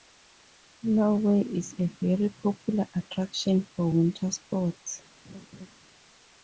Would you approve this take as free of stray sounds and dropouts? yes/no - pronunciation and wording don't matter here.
no